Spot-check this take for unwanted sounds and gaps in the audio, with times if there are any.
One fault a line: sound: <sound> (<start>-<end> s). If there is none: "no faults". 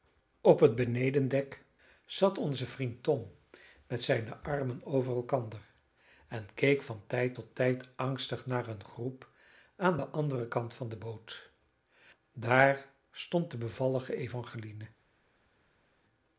no faults